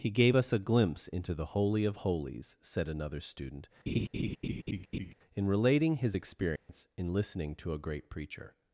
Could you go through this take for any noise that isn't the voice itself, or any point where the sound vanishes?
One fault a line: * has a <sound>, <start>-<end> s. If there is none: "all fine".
* has a laugh, 3.9-5.1 s
* has a dropout, 6.6-6.7 s